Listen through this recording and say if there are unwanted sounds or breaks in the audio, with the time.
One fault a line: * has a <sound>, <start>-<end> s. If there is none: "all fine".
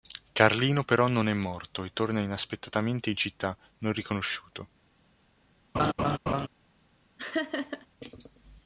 * has a laugh, 5.7-6.5 s
* has a laugh, 7.2-7.9 s